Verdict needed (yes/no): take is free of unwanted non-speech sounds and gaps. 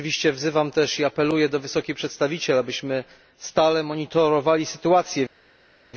yes